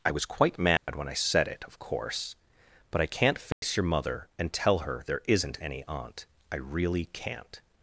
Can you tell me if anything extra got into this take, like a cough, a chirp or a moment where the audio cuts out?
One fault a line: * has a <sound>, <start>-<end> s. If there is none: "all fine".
* has a dropout, 0.8-0.9 s
* has a dropout, 3.5-3.6 s